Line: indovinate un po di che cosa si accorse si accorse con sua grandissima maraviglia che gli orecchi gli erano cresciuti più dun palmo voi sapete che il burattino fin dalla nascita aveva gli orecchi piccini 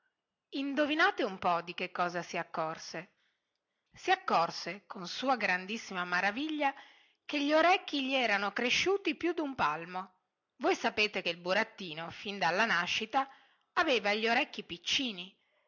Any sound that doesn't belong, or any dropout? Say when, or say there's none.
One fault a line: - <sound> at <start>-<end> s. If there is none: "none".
none